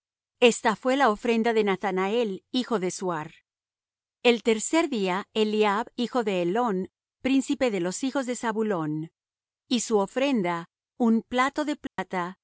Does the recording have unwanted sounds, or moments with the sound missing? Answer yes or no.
yes